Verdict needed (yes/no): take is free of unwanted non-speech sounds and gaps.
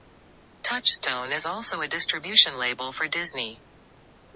yes